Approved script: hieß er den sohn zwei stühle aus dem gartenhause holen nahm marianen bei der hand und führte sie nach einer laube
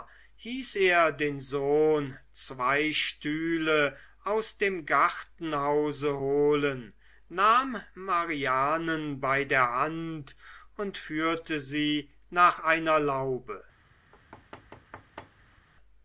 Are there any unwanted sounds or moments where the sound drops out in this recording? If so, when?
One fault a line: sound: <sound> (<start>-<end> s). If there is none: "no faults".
sound: thud (14.1-15.7 s)